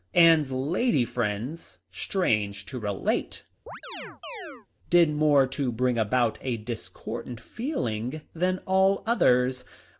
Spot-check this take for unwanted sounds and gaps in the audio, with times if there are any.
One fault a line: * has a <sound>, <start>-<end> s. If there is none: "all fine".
* has a chirp, 3.7-4.7 s